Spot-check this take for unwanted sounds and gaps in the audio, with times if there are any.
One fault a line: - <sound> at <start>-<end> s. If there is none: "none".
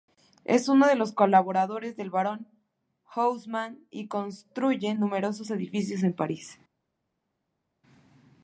none